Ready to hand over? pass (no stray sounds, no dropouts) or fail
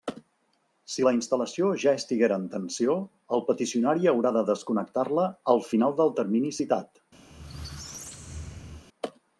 fail